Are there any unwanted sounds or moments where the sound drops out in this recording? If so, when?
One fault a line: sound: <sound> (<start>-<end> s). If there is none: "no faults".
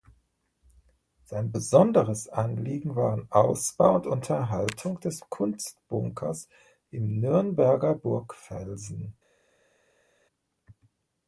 no faults